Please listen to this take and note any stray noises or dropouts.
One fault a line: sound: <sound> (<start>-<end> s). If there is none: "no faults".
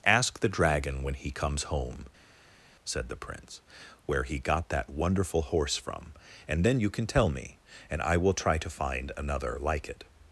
no faults